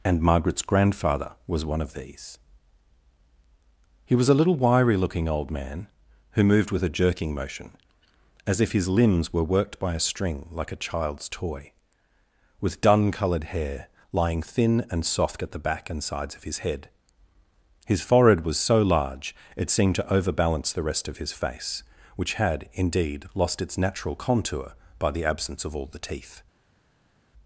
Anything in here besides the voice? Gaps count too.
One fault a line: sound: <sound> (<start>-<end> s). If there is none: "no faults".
no faults